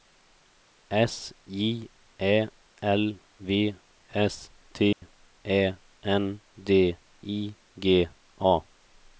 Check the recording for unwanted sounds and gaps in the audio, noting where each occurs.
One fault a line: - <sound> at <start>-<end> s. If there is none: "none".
- dropout at 4.9-5.0 s